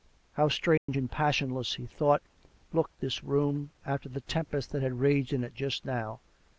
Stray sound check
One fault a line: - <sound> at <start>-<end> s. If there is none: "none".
- dropout at 0.8-0.9 s